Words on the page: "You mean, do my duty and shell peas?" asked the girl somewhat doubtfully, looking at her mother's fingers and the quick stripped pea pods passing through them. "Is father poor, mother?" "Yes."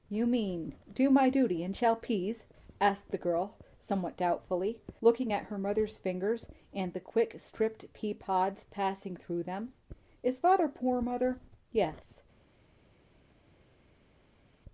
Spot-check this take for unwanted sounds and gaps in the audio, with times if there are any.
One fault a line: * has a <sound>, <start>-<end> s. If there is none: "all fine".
all fine